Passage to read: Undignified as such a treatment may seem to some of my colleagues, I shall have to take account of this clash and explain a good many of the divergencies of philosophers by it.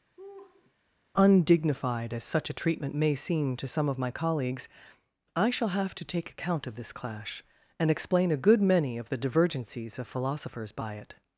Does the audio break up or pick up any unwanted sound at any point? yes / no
yes